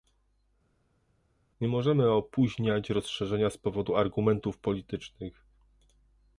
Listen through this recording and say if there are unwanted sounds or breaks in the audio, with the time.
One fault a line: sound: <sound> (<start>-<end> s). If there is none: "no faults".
no faults